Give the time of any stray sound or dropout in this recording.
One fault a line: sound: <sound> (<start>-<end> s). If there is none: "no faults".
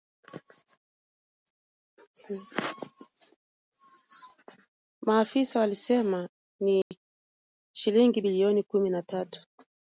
sound: dropout (6.8-6.9 s)